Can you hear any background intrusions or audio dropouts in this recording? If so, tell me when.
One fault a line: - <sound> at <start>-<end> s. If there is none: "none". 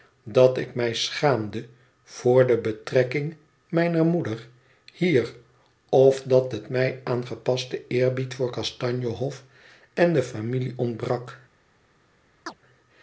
- chirp at 12.5-12.6 s